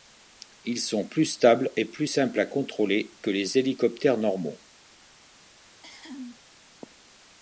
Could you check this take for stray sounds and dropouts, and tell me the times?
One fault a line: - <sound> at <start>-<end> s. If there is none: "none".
- cough at 5.7-6.4 s